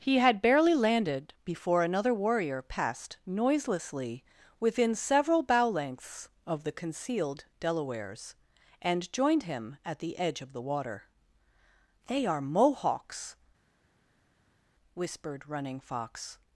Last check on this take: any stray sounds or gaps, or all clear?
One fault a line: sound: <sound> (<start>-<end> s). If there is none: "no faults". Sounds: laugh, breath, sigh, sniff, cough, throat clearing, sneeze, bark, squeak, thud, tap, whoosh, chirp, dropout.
no faults